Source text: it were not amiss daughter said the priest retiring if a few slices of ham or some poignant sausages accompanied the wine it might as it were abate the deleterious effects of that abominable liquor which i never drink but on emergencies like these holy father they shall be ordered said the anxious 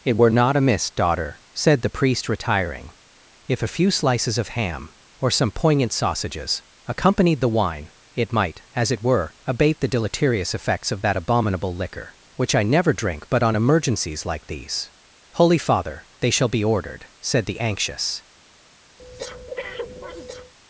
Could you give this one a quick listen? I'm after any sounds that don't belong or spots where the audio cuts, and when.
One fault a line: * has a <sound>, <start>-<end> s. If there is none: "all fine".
* has a breath, 19.0-20.5 s